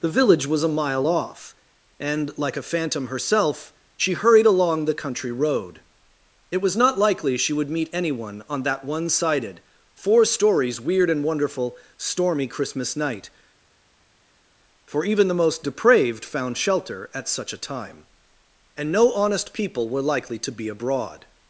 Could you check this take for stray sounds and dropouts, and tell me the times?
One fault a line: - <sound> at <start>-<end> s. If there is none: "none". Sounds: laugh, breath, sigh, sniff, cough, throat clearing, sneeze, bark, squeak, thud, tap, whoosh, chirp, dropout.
none